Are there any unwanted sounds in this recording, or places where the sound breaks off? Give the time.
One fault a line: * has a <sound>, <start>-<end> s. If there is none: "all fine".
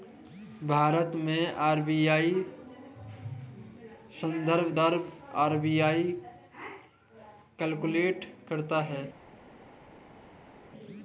all fine